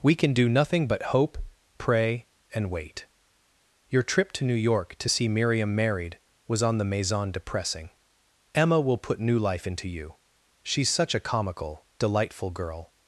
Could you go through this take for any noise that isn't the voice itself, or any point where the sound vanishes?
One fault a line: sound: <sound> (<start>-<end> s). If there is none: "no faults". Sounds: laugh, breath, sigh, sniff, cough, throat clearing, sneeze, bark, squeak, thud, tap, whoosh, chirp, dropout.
no faults